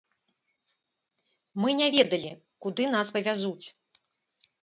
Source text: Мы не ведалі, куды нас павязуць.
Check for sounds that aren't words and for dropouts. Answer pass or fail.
pass